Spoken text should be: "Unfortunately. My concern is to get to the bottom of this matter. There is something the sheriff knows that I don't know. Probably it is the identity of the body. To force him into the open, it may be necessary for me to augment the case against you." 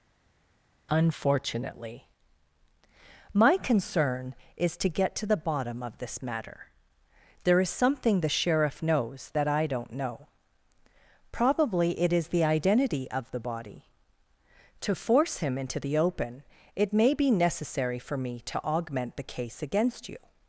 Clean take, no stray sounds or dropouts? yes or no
yes